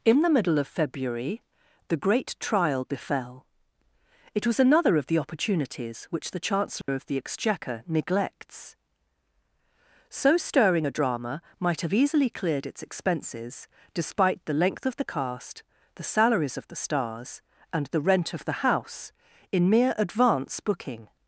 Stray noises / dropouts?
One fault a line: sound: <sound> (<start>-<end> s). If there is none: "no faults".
sound: dropout (6.8-6.9 s)